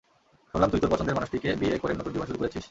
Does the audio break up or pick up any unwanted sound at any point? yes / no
no